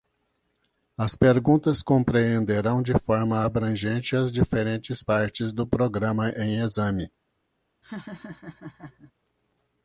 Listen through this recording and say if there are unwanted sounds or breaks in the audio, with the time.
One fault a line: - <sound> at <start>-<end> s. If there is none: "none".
- laugh at 7.8-9.1 s